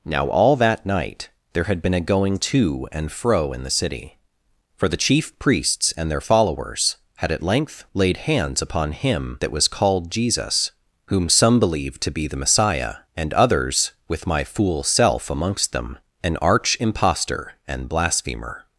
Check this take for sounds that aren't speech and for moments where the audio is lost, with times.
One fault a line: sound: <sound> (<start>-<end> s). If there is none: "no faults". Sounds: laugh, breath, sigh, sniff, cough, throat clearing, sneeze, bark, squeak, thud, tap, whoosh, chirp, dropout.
no faults